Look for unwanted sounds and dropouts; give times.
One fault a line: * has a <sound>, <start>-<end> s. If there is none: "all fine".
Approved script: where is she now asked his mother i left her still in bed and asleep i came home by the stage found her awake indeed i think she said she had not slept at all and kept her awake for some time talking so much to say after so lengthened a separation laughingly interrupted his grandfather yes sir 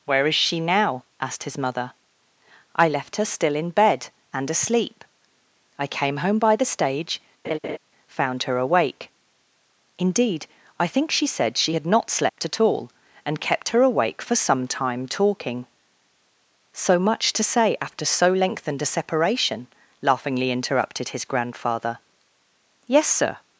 * has a laugh, 7.4-7.8 s
* has a dropout, 12.3-12.4 s